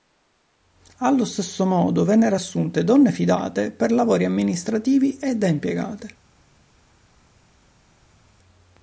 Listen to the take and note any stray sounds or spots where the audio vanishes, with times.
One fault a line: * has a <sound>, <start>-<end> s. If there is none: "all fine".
all fine